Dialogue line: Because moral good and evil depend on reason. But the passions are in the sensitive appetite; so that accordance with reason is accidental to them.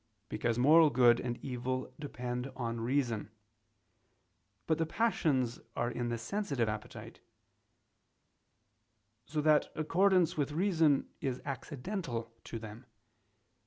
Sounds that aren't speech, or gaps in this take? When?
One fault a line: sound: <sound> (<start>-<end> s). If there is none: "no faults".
no faults